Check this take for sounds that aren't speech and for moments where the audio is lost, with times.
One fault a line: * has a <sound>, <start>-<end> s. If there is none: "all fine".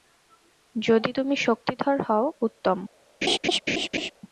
* has a laugh, 3.2-4.1 s